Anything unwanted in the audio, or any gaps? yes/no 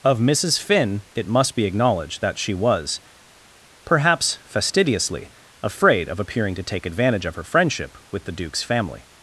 no